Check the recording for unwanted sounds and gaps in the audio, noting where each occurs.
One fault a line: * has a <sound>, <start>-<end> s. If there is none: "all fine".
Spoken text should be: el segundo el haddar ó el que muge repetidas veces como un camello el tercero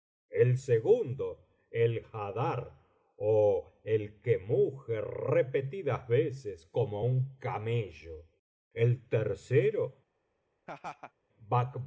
* has a laugh, 10.7-11.1 s